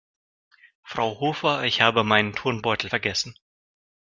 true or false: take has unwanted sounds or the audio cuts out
false